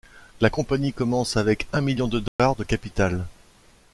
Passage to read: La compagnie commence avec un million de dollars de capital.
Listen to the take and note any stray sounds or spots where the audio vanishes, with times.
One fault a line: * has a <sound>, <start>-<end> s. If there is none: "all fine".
* has a dropout, 2.3-2.4 s